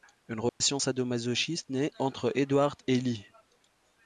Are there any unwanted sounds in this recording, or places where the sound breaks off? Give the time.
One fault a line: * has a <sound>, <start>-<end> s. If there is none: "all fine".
* has a dropout, 0.5-0.6 s